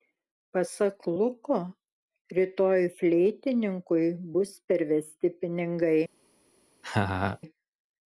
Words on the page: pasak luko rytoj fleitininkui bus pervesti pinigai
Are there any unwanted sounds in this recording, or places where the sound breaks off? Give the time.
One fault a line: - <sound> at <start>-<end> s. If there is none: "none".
- laugh at 6.8-7.4 s